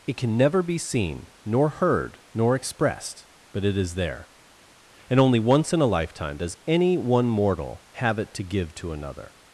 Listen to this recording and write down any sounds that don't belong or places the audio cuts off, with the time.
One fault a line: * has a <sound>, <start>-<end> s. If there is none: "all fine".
all fine